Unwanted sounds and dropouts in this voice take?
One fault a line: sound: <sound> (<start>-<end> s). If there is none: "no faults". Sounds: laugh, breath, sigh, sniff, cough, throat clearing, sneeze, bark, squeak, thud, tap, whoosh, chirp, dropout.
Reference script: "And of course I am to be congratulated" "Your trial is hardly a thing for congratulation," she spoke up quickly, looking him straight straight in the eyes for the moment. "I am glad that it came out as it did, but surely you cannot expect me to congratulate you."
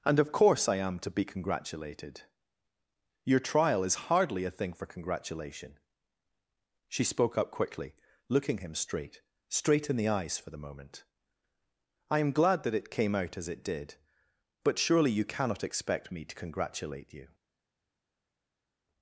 no faults